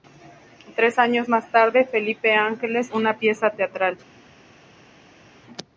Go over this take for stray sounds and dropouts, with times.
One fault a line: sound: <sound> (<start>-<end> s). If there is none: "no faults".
no faults